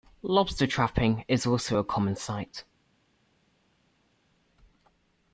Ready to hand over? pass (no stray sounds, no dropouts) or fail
pass